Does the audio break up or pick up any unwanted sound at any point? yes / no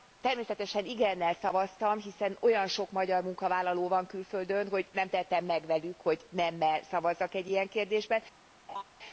yes